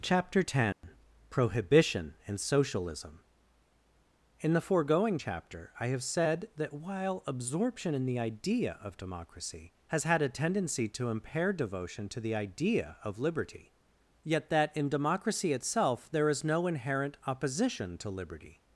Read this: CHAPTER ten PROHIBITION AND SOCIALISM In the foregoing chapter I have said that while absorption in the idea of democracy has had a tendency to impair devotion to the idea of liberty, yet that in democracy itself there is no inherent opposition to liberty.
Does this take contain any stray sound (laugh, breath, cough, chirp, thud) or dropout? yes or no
yes